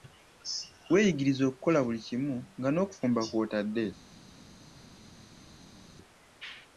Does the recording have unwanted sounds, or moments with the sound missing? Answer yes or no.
no